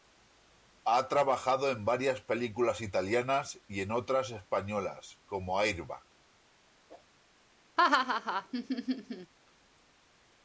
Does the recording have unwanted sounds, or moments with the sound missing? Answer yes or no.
yes